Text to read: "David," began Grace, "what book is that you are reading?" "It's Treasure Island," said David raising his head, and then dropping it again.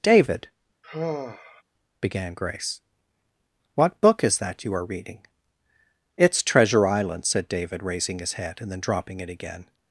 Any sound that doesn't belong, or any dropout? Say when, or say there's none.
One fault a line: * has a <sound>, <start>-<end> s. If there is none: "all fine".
* has a sigh, 0.8-1.6 s